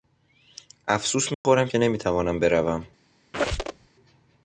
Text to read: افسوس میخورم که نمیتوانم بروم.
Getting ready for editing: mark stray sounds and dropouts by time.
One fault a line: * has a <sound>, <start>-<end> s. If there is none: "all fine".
* has a dropout, 1.3-1.4 s
* has a squeak, 3.3-3.9 s